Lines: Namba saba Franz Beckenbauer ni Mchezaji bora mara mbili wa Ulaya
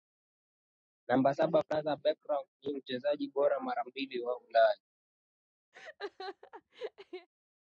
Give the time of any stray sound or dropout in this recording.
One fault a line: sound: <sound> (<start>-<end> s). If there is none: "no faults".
sound: laugh (5.7-7.3 s)